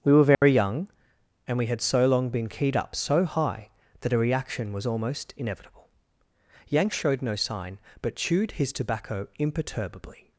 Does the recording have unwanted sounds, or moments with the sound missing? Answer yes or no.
yes